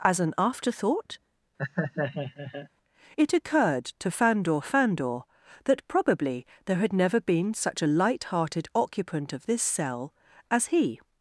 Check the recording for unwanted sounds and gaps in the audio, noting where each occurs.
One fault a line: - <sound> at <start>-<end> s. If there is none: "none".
- laugh at 1.6-2.7 s